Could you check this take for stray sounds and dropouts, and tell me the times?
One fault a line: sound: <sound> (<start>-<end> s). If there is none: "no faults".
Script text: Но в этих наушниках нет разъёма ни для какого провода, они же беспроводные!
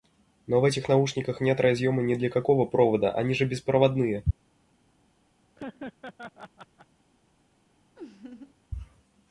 sound: laugh (5.6-6.9 s)
sound: laugh (8.0-8.5 s)